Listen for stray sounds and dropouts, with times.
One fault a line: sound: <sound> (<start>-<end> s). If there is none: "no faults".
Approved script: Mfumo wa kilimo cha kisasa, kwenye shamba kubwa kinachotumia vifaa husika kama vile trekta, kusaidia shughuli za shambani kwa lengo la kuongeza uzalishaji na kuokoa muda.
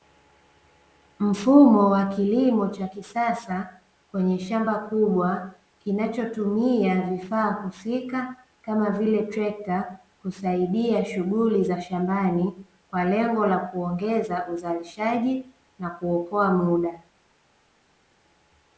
no faults